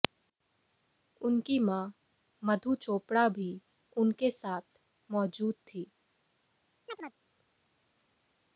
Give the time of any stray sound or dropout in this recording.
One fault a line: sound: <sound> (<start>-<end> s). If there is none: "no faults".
sound: chirp (6.9-7.1 s)